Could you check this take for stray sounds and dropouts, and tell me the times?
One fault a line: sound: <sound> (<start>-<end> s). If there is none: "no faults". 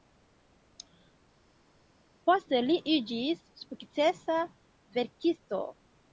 no faults